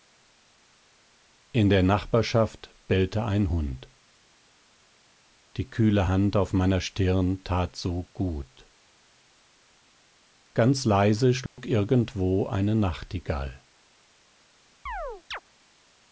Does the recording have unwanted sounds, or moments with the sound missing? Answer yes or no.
yes